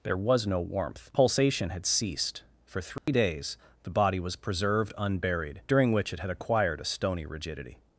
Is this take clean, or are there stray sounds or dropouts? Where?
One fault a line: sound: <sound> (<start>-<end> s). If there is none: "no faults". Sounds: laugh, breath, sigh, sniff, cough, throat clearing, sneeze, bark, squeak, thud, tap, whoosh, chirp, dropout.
sound: dropout (3.0-3.1 s)